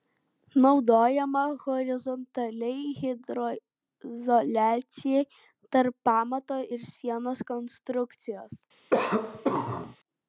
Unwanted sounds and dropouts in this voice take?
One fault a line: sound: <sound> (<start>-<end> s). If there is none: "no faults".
sound: cough (8.9-10.0 s)